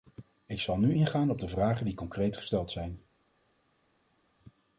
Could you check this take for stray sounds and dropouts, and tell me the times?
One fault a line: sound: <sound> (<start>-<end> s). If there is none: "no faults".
no faults